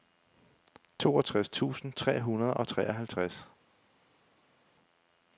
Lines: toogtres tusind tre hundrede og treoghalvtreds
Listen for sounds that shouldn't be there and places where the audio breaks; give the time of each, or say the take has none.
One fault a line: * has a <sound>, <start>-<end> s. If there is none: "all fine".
all fine